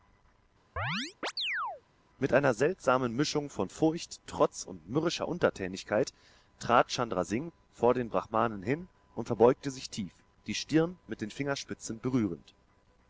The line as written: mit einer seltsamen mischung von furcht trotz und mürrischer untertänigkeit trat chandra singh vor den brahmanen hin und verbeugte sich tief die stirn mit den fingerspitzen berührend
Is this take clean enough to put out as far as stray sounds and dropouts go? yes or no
no